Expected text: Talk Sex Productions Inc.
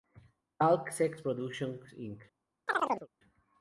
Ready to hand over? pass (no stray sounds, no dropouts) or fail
fail